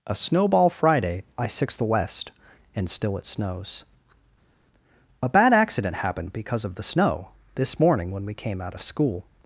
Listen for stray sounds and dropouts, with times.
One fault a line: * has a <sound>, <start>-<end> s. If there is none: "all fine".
all fine